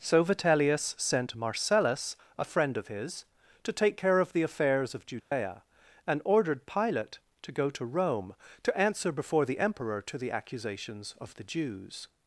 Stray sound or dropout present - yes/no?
yes